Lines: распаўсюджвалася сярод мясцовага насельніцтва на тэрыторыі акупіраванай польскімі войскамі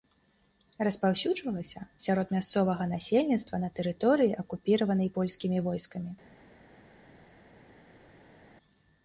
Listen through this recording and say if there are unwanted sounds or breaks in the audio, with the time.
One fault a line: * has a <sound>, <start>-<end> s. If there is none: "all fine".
all fine